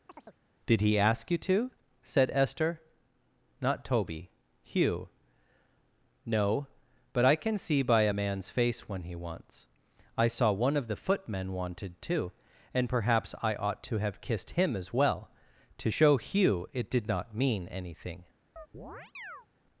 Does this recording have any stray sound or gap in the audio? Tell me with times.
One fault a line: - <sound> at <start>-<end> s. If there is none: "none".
- chirp at 0.1-0.4 s
- chirp at 18.6-19.5 s